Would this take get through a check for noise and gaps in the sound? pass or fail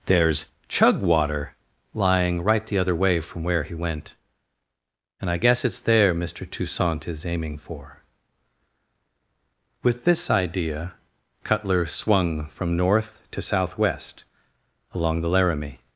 pass